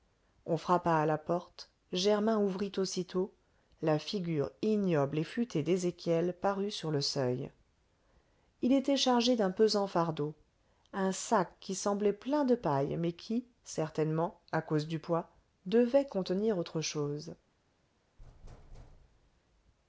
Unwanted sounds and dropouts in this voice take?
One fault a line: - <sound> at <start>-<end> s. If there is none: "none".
- thud at 18.2-19.4 s